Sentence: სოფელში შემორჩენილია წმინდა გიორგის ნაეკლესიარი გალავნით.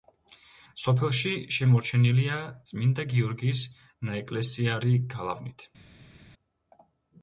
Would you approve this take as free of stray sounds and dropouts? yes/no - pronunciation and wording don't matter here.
yes